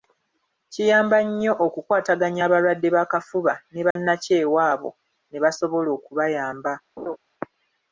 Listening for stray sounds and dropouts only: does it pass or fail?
fail